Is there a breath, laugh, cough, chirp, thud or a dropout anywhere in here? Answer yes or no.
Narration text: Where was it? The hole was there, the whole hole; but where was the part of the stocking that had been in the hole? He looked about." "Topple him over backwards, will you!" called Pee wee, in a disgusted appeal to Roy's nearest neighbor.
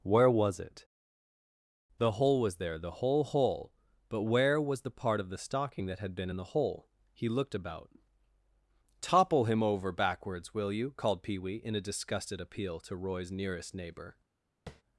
yes